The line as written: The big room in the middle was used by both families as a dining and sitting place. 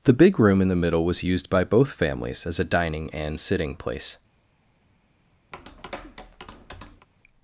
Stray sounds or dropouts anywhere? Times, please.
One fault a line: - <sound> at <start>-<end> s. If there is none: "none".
- tap at 5.5-7.1 s